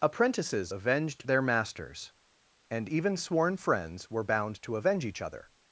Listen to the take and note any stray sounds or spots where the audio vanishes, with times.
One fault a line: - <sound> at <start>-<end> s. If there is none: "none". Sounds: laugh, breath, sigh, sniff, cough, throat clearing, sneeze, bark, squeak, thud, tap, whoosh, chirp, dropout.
none